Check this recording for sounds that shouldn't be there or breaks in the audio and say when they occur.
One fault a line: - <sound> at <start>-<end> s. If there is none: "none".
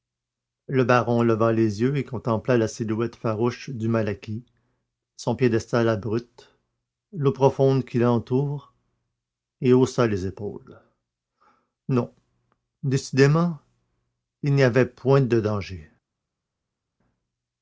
none